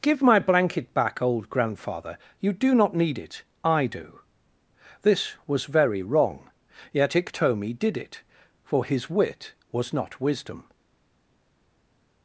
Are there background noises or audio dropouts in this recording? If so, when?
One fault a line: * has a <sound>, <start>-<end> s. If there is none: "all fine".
all fine